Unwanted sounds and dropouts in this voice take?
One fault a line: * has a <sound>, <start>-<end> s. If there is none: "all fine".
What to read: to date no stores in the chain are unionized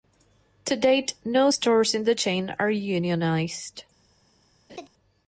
* has a laugh, 4.7-4.9 s